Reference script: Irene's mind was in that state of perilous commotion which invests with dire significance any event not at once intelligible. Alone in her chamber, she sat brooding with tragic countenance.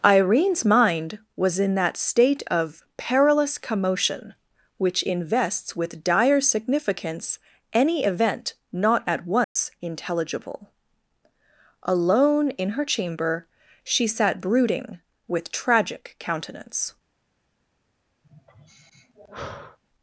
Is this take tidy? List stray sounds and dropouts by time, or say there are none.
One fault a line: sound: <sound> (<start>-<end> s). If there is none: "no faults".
sound: dropout (9.4-9.6 s)
sound: sigh (18.2-19.8 s)